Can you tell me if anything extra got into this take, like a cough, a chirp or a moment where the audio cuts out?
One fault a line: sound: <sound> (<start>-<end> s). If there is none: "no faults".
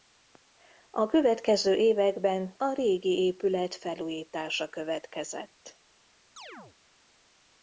sound: chirp (6.4-6.8 s)